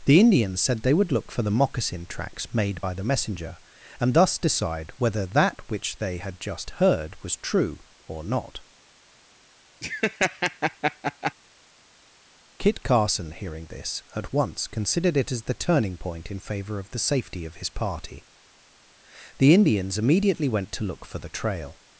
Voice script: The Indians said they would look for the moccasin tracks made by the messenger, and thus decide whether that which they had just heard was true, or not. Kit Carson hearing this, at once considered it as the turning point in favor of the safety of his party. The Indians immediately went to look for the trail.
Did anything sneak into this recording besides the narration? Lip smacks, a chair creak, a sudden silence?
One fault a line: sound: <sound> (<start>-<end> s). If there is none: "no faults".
sound: laugh (9.8-11.3 s)